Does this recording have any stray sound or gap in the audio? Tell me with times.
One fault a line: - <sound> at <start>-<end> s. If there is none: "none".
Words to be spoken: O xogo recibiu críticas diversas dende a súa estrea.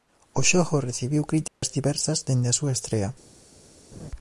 - dropout at 1.5-1.6 s
- laugh at 3.9-4.1 s